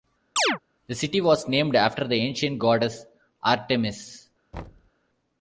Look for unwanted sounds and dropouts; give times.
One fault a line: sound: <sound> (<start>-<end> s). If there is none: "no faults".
sound: chirp (0.4-0.6 s)
sound: thud (4.5-4.9 s)